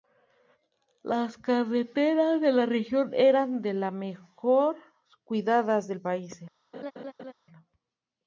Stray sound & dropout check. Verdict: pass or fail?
fail